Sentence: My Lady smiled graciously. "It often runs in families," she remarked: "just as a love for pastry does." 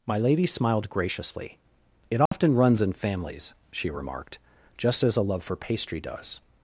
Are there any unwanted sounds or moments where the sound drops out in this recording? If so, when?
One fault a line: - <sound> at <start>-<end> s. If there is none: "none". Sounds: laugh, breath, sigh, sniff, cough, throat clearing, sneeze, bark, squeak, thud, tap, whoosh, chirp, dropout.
- dropout at 2.3-2.3 s